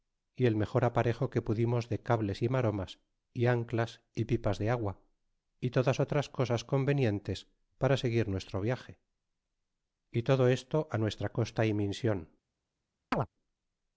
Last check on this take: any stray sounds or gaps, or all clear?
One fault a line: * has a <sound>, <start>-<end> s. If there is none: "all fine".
* has a chirp, 13.1-13.3 s